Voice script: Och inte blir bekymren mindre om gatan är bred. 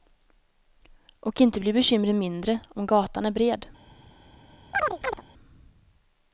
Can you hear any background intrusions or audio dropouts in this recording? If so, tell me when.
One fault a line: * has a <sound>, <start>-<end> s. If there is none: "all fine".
* has a chirp, 4.7-5.2 s